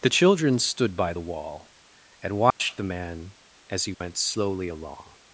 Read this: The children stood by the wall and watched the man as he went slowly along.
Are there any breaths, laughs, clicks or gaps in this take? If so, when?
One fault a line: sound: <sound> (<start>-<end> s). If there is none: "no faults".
sound: dropout (2.5-2.6 s)
sound: dropout (3.9-4.0 s)